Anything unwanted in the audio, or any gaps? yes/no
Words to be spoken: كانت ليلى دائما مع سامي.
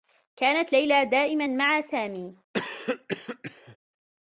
yes